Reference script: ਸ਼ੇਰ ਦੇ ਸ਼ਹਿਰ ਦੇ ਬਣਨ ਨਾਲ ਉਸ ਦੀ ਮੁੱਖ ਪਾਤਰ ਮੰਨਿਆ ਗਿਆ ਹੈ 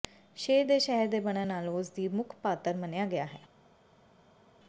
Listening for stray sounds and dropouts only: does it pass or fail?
pass